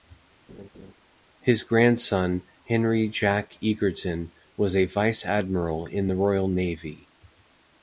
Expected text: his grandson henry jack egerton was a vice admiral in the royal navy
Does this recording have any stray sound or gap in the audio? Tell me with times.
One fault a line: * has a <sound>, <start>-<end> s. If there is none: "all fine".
* has a laugh, 0.5-0.9 s